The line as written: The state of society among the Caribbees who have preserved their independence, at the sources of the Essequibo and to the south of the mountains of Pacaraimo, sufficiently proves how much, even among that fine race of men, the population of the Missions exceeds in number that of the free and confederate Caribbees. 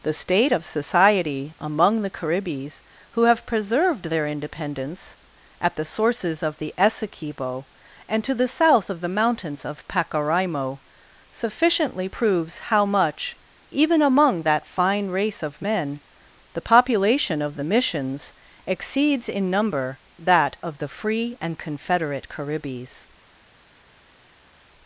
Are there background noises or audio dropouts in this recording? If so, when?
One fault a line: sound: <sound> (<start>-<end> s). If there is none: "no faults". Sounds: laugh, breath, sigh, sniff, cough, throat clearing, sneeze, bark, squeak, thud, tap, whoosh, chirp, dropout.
no faults